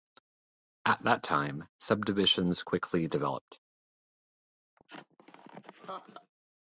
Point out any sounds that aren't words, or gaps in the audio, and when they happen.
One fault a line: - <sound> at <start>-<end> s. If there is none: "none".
- laugh at 4.8-6.3 s